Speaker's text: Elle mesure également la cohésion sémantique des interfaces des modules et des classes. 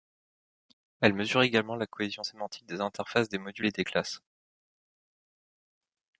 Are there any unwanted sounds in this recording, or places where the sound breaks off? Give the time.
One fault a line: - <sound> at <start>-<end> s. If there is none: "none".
none